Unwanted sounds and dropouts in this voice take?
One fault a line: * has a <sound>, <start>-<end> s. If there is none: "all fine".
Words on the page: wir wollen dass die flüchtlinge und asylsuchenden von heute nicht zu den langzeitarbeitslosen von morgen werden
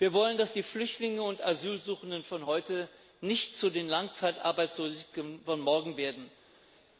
all fine